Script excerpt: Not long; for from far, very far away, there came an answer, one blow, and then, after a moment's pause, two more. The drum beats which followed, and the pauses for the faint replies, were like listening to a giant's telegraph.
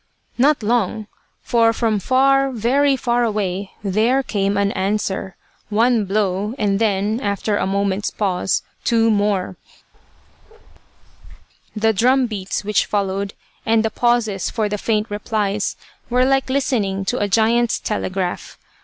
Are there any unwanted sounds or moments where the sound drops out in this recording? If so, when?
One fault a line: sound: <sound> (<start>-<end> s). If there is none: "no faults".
sound: bark (9.9-11.5 s)